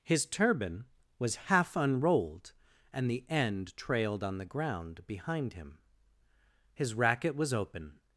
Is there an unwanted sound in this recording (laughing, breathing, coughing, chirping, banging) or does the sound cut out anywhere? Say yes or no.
no